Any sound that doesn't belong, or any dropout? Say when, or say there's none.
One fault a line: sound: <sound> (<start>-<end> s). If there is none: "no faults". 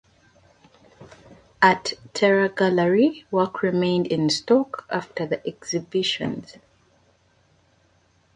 no faults